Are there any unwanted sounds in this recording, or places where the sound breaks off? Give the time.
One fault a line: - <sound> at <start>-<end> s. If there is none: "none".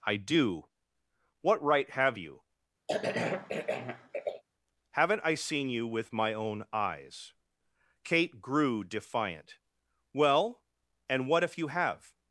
- cough at 2.9-4.4 s